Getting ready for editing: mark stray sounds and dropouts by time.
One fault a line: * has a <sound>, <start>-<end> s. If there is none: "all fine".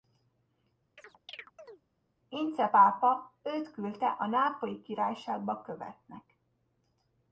* has a chirp, 1.0-1.8 s